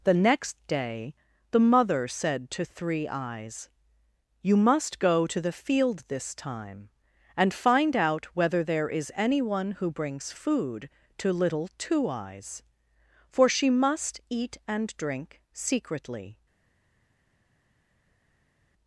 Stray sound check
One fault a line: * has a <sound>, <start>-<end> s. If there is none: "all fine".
all fine